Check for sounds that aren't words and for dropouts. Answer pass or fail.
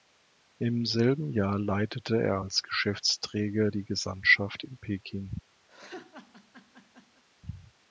fail